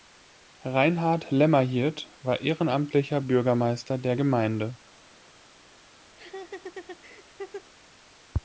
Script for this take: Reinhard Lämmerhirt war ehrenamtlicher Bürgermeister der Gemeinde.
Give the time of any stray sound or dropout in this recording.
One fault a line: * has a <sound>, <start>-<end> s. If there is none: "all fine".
* has a laugh, 6.1-7.7 s